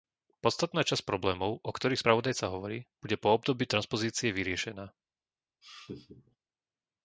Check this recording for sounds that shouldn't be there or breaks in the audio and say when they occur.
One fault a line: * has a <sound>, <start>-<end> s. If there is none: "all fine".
* has a laugh, 5.6-6.4 s